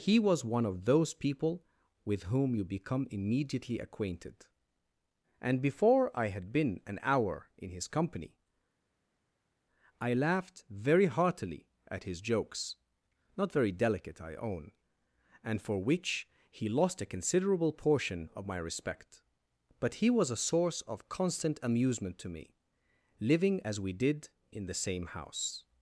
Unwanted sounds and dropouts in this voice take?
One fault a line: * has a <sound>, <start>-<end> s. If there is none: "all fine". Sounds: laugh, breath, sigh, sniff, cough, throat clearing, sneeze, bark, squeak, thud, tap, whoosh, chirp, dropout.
all fine